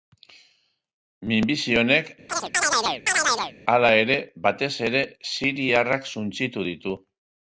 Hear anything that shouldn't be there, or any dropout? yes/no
yes